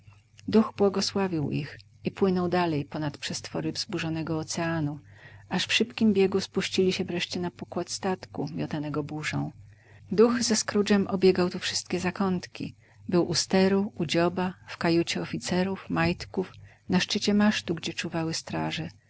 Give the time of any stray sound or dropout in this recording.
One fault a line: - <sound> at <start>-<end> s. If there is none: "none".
none